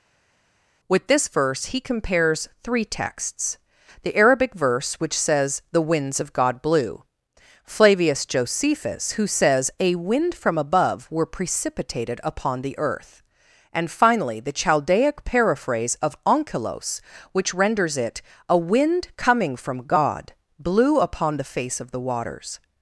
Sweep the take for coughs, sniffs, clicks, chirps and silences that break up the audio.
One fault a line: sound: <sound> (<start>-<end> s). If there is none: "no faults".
no faults